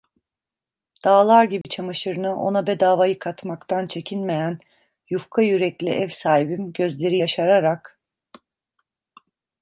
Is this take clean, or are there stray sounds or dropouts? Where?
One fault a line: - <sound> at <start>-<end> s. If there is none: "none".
- dropout at 1.6-1.6 s